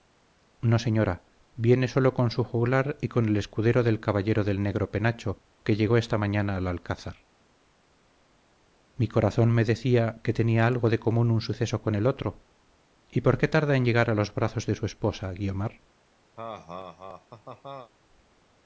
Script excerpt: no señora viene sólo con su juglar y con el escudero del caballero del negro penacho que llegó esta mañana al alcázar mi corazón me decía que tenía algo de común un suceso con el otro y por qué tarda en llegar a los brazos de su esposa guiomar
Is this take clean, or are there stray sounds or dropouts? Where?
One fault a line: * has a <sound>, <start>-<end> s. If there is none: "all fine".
* has a laugh, 16.4-17.9 s